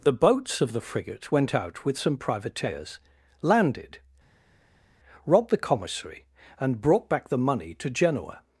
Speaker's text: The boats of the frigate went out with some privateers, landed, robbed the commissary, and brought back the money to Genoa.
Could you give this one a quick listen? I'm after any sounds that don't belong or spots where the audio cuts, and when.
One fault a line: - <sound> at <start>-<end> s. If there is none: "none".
none